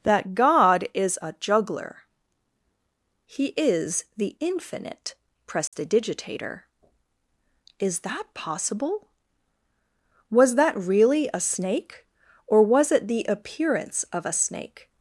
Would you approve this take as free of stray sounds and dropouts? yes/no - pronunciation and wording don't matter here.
no